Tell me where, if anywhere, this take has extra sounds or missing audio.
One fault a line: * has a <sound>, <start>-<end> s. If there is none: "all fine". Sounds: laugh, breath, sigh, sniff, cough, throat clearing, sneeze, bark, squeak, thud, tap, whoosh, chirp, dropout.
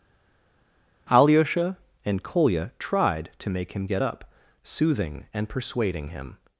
all fine